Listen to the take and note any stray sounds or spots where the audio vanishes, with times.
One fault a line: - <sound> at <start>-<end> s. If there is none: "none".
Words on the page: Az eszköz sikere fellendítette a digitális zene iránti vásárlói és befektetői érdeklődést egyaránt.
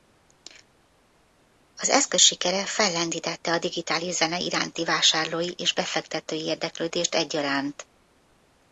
none